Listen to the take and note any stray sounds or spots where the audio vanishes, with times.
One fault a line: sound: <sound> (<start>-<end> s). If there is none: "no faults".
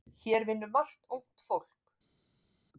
no faults